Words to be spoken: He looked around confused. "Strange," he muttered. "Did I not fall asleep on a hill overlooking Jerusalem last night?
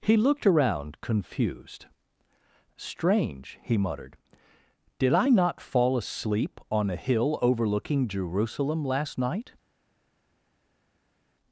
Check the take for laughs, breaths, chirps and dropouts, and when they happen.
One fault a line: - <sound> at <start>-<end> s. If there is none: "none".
none